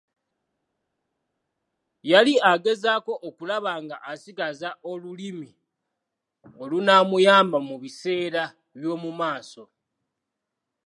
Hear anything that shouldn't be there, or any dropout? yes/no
no